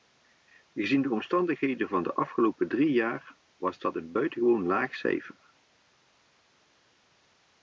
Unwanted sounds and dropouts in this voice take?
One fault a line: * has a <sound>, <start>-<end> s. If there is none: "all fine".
all fine